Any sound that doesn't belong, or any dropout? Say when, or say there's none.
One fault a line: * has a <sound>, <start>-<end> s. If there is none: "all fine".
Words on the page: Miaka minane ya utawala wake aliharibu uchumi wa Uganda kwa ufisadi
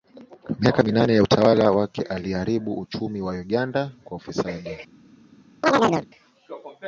* has a chirp, 5.6-6.1 s